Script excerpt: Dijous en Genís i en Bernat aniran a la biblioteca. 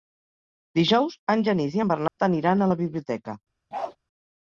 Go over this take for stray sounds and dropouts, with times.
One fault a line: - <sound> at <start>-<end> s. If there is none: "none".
- dropout at 2.1-2.2 s
- bark at 3.7-4.0 s